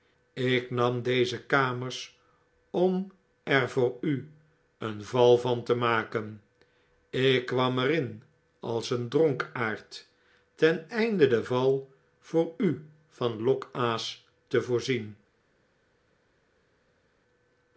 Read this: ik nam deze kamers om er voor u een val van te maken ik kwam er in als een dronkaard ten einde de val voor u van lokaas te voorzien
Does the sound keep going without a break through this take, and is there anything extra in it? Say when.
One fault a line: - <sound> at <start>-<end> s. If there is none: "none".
none